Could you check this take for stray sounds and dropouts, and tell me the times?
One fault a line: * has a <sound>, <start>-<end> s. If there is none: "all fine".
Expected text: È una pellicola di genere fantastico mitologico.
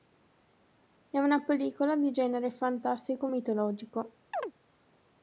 * has a chirp, 4.3-4.5 s